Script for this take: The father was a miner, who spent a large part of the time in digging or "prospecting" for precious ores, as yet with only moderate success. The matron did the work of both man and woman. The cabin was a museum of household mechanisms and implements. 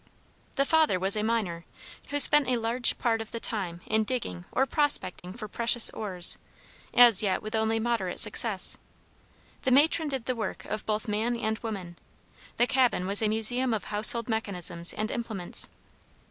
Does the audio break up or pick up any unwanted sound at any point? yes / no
yes